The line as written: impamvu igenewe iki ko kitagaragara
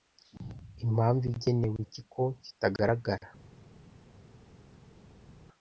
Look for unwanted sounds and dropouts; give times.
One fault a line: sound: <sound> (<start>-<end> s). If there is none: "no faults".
no faults